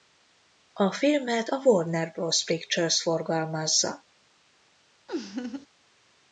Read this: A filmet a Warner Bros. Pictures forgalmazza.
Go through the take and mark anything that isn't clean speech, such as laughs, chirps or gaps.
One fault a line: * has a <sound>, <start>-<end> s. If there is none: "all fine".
* has a laugh, 5.1-5.7 s